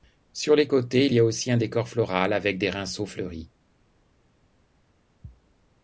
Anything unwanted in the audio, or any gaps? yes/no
no